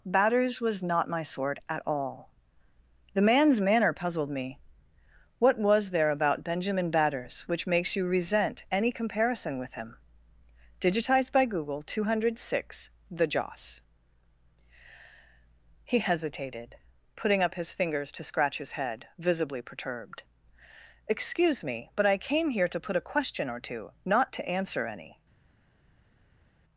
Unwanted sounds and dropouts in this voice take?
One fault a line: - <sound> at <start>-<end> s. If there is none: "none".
none